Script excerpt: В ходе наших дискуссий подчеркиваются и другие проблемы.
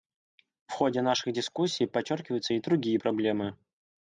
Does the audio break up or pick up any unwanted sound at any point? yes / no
no